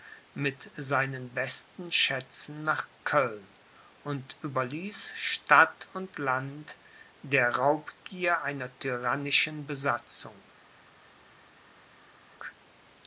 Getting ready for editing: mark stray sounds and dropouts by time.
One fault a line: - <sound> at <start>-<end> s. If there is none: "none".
none